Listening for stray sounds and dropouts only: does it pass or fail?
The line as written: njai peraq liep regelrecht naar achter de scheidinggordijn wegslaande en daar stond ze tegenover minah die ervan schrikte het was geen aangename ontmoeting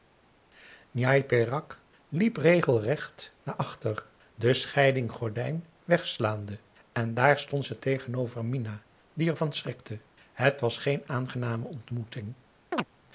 fail